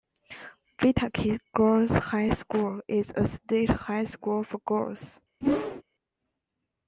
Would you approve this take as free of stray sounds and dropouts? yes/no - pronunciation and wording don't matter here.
no